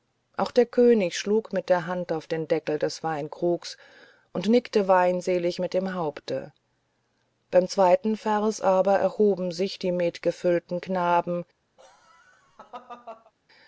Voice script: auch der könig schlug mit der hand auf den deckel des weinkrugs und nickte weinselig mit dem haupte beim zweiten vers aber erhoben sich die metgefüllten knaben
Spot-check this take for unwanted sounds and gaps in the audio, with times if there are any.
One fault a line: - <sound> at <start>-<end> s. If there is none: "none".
- laugh at 11.8-13.3 s